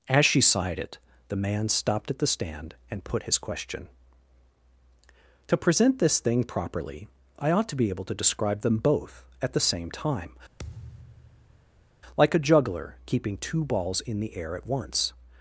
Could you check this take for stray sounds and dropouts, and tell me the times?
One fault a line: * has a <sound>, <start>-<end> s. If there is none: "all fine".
* has a thud, 10.6-11.9 s